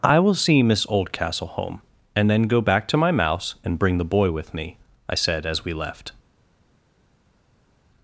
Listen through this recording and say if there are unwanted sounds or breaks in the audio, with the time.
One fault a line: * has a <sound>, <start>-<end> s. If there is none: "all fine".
all fine